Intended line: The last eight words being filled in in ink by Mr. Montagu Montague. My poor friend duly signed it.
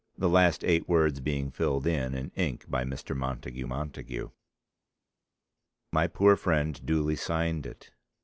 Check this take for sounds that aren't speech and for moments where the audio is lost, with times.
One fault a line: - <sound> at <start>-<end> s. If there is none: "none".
none